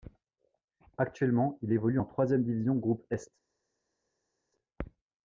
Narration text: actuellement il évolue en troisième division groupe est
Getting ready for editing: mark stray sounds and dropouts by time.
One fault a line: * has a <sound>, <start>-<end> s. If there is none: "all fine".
all fine